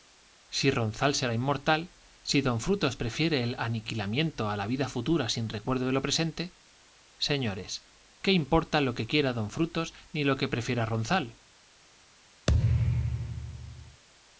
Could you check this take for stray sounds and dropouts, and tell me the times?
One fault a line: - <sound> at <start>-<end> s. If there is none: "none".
- thud at 12.5-14.0 s